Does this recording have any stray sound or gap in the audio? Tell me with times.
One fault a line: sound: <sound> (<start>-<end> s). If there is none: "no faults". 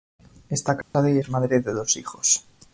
sound: dropout (0.8-0.9 s)